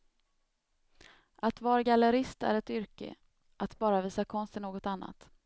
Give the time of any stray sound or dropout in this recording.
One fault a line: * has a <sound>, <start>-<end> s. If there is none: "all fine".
all fine